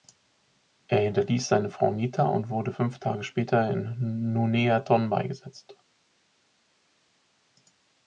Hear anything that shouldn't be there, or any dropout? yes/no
no